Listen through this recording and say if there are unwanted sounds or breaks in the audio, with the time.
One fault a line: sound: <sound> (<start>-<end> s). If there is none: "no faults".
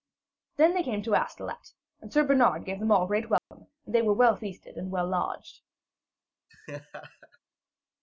sound: dropout (3.4-3.5 s)
sound: laugh (6.5-7.4 s)